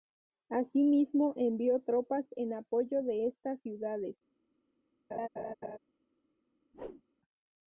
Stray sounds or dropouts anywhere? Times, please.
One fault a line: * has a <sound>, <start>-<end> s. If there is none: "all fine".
* has a laugh, 5.1-5.8 s
* has a whoosh, 6.7-7.0 s